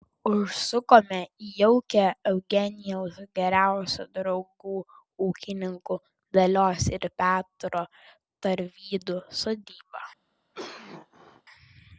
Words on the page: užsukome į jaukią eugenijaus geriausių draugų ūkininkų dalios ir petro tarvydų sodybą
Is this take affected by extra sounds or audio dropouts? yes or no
yes